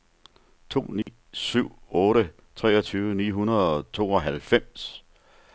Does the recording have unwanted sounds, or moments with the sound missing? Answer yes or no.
yes